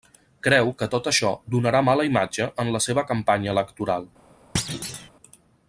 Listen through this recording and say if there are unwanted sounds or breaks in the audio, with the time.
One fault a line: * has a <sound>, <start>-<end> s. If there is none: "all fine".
* has a thud, 4.5-5.1 s